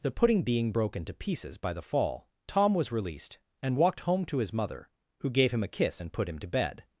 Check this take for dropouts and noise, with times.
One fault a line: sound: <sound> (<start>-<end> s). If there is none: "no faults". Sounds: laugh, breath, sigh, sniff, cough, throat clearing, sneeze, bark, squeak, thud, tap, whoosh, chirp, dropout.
no faults